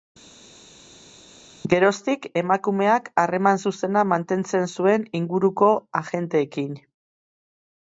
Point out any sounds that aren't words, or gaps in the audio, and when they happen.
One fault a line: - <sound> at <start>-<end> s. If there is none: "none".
none